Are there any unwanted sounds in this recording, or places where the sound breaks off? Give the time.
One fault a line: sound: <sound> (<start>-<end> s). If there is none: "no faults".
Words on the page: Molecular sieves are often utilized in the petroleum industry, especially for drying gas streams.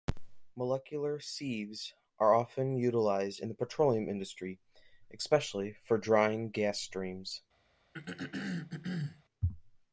sound: throat clearing (7.9-9.2 s)